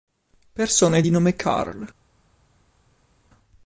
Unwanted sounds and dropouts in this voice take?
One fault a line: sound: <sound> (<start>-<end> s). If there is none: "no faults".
no faults